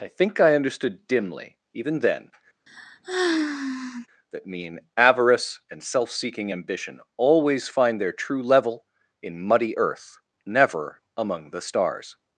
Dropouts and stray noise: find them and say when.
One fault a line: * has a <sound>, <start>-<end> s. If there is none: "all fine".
* has a sigh, 2.7-4.1 s